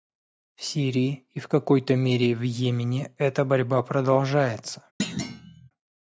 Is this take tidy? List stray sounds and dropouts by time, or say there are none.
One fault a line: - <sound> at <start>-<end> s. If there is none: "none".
- thud at 5.0-5.7 s